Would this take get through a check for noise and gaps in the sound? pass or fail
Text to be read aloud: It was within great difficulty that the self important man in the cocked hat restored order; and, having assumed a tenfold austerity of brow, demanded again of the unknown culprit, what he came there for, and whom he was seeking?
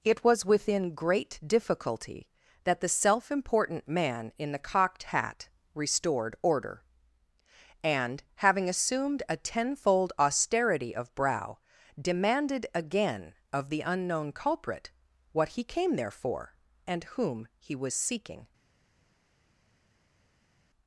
pass